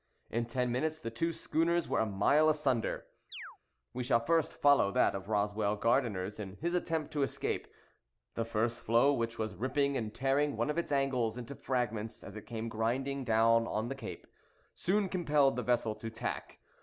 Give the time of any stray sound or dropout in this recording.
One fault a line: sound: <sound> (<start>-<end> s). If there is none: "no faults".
sound: chirp (3.3-3.6 s)